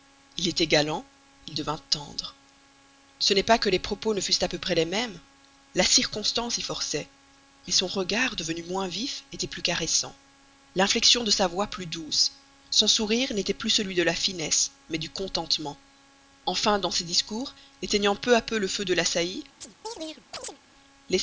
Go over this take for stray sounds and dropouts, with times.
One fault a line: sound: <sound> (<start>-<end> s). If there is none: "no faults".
sound: chirp (19.6-20.6 s)